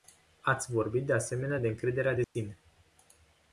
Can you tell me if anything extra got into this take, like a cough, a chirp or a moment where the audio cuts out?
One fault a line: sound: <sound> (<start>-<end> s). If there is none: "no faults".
sound: dropout (2.2-2.3 s)